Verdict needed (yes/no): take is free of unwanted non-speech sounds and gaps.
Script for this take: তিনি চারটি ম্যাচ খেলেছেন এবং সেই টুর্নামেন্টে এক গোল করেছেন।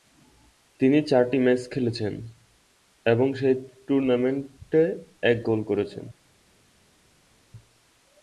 yes